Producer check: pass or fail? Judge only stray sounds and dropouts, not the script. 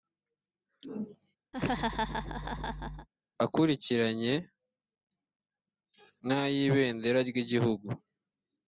fail